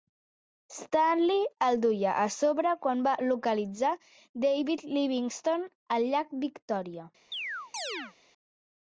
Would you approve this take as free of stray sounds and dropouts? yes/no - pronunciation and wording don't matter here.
no